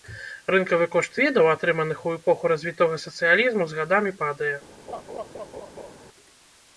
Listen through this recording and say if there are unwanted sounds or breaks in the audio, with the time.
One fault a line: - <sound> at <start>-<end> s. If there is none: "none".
- laugh at 4.9-5.9 s